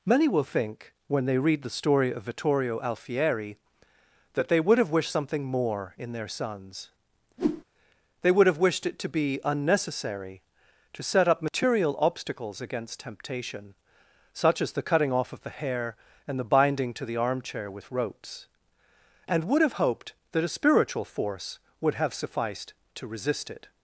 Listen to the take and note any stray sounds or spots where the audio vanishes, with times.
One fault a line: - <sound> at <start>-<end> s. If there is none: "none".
- whoosh at 7.4-7.6 s